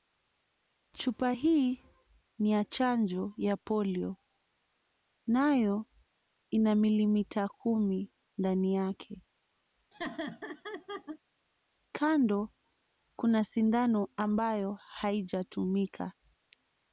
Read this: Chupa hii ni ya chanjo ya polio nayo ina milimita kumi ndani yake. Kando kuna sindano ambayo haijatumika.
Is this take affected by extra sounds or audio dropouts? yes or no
yes